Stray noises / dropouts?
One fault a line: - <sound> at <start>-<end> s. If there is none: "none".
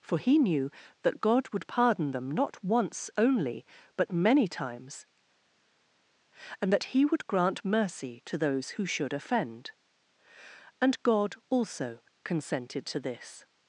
none